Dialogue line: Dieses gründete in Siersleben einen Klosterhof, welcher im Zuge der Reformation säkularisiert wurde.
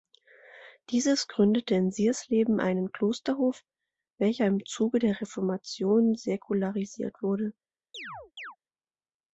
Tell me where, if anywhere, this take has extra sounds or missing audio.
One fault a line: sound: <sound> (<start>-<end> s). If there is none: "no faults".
sound: chirp (7.9-8.6 s)